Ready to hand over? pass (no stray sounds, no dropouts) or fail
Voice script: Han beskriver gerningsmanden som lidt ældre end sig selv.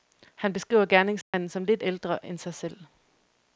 fail